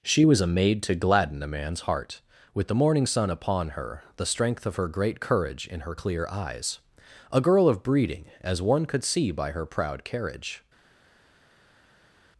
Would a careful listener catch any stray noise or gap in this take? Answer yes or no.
no